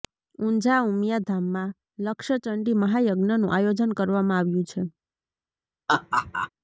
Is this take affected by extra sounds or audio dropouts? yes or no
yes